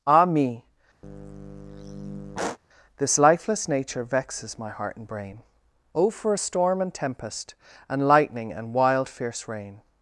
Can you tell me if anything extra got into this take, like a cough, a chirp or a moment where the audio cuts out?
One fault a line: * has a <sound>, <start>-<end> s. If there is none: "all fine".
* has a sigh, 1.0-2.6 s